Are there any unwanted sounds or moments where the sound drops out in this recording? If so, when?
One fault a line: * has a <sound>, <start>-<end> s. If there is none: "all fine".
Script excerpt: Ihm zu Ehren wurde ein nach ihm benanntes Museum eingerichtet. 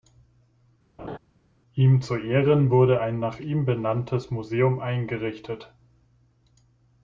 * has a laugh, 1.0-1.2 s